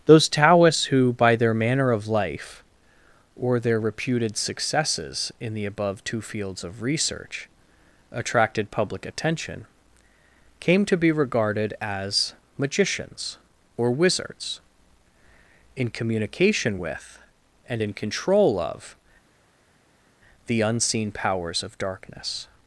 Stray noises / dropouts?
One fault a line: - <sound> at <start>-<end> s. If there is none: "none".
none